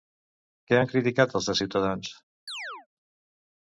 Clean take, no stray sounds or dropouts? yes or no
no